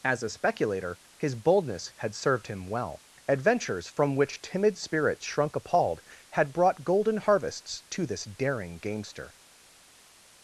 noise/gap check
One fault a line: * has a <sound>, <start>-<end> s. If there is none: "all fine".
all fine